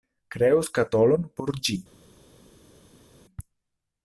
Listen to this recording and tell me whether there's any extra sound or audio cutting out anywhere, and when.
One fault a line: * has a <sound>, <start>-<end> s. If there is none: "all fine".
all fine